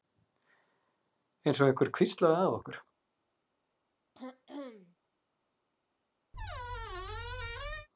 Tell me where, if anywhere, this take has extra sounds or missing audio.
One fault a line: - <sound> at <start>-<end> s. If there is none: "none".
- throat clearing at 4.2-5.0 s
- squeak at 6.3-7.9 s